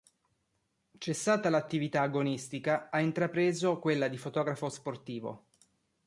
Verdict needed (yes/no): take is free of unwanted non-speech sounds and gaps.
yes